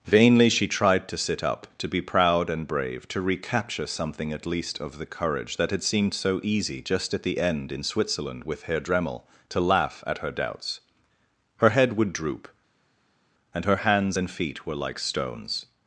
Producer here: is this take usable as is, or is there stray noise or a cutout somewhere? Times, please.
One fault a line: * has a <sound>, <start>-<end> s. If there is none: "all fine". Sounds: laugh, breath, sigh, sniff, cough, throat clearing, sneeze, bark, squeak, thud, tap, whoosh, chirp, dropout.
all fine